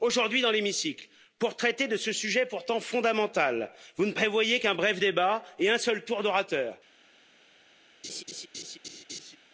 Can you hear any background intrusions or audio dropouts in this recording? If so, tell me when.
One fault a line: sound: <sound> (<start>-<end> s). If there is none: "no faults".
sound: laugh (8.0-9.4 s)